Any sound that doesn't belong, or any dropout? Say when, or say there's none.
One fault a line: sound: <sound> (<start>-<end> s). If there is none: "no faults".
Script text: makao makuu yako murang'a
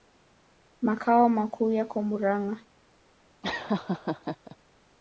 sound: laugh (3.4-4.6 s)